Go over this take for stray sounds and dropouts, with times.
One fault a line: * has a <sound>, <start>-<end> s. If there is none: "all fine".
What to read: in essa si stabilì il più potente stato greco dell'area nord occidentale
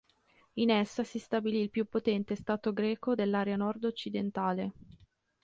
all fine